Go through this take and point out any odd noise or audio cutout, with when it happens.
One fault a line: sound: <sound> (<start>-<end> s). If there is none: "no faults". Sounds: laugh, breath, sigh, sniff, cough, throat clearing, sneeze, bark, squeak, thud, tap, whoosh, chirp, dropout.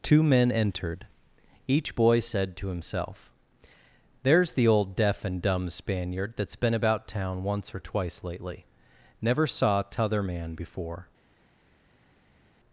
no faults